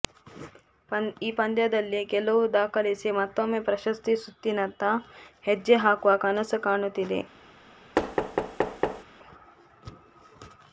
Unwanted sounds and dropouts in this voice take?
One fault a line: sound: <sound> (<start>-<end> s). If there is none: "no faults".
sound: thud (8.0-9.0 s)